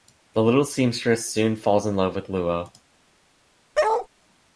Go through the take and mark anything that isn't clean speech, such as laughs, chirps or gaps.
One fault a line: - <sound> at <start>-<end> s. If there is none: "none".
- bark at 3.7-4.1 s